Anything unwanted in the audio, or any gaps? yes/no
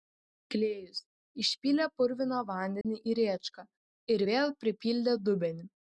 yes